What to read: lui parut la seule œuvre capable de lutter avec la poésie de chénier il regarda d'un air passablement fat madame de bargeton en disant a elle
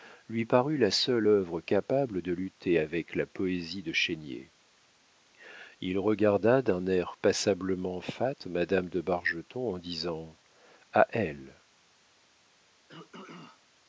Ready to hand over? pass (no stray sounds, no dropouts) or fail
fail